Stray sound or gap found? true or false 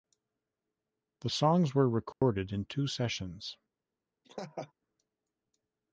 true